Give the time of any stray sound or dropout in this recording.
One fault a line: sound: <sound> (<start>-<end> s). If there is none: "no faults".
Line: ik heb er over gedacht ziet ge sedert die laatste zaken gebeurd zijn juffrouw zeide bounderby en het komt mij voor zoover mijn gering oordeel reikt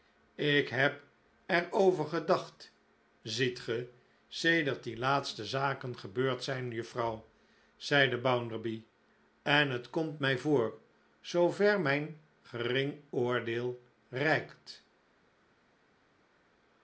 no faults